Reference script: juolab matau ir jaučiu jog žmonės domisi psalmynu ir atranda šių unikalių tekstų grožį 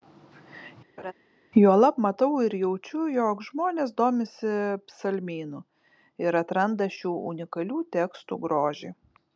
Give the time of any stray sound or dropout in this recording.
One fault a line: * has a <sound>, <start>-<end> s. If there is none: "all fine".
* has a laugh, 1.0-1.1 s